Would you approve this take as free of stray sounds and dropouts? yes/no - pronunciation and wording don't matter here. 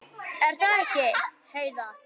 yes